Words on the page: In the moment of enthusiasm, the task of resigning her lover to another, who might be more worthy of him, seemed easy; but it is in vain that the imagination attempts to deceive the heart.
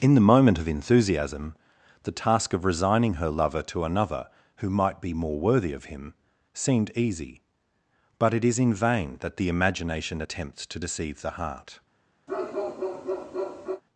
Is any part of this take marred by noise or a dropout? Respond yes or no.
yes